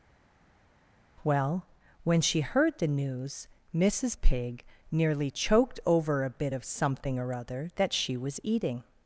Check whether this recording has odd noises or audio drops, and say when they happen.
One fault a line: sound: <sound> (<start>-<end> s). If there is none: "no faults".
no faults